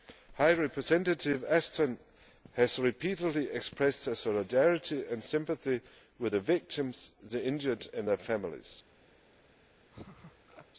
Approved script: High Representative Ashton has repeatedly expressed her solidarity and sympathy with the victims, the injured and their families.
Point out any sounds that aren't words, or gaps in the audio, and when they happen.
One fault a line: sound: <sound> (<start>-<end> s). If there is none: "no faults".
sound: laugh (9.9-10.7 s)